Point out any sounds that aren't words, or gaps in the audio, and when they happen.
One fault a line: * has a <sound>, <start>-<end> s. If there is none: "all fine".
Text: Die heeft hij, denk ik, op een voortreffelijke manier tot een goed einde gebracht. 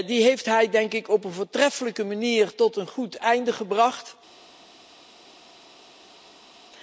all fine